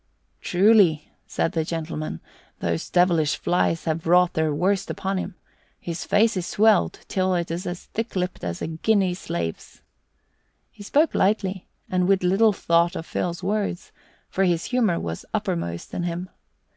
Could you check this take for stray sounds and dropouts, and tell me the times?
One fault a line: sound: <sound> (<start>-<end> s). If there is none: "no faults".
no faults